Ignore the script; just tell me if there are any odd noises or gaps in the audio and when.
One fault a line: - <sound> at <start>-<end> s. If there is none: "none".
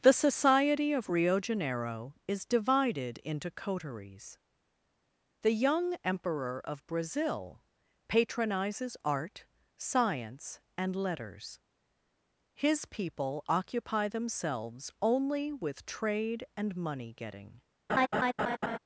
- laugh at 17.9-18.8 s